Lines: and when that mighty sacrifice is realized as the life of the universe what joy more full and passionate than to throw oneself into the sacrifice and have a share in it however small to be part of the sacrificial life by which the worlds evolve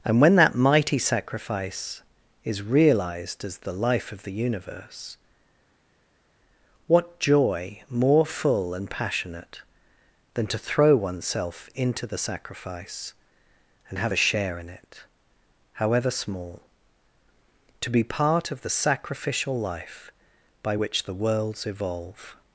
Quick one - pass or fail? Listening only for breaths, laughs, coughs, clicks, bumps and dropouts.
pass